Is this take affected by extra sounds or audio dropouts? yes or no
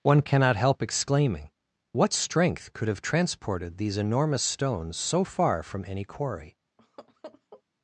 yes